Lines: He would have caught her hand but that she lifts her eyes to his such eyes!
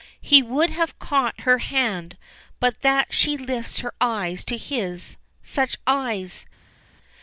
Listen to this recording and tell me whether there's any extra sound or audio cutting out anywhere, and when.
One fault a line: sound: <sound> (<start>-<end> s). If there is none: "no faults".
no faults